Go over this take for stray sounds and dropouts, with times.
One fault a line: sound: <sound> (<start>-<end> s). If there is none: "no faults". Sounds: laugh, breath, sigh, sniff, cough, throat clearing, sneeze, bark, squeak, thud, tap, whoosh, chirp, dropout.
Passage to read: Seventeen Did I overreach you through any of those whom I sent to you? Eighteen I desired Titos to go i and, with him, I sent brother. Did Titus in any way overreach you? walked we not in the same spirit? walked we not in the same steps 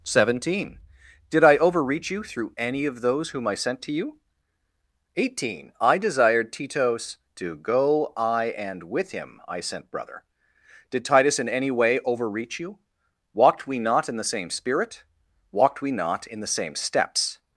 no faults